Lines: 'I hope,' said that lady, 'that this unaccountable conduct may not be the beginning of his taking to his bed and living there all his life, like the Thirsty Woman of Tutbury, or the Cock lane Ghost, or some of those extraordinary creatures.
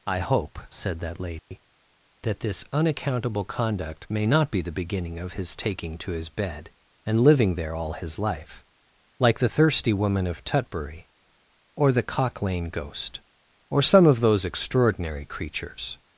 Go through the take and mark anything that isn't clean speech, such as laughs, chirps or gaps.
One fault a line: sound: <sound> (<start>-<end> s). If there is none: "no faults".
sound: dropout (1.4-1.5 s)